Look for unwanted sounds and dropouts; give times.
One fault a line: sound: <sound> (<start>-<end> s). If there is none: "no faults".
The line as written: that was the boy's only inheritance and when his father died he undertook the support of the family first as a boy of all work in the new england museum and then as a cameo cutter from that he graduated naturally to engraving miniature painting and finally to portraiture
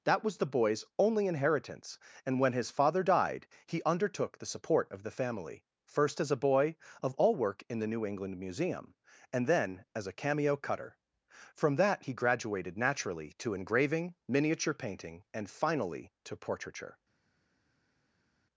no faults